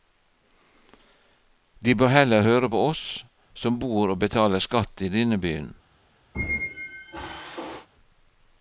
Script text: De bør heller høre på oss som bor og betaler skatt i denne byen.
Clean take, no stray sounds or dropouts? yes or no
no